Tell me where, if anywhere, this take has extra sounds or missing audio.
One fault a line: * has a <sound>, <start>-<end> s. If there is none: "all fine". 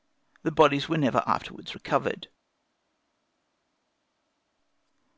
all fine